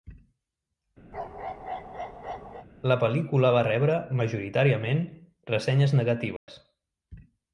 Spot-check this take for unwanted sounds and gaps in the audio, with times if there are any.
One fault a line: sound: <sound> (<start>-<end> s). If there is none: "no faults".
sound: bark (1.1-2.7 s)
sound: dropout (6.4-6.5 s)